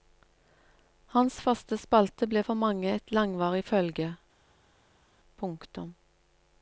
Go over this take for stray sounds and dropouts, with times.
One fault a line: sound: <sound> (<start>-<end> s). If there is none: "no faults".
no faults